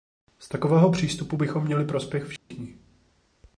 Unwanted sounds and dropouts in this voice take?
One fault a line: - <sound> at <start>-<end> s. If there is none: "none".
- dropout at 2.4-2.5 s